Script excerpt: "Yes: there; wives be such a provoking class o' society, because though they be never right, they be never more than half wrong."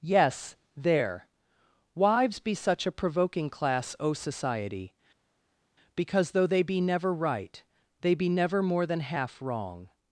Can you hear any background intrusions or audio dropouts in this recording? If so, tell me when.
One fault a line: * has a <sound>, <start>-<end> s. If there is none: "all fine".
all fine